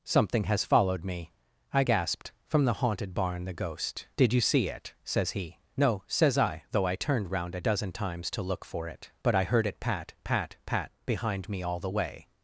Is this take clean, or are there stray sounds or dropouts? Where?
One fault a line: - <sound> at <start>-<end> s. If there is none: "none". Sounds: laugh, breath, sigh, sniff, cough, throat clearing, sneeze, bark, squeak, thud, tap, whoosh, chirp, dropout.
none